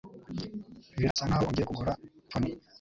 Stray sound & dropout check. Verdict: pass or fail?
fail